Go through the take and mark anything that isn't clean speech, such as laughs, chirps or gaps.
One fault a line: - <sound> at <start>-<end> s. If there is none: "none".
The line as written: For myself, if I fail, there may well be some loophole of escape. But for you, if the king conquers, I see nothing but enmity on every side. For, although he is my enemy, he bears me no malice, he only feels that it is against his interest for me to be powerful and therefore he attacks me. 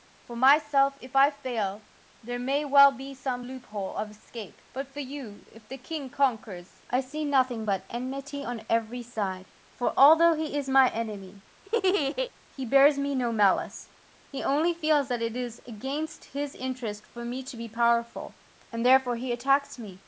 - laugh at 11.7-12.3 s